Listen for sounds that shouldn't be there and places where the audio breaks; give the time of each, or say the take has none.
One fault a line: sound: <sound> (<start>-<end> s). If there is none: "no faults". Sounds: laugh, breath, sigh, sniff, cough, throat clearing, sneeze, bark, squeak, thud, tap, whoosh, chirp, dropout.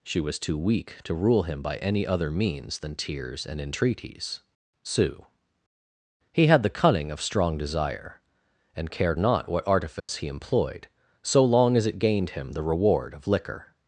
sound: dropout (10.0-10.1 s)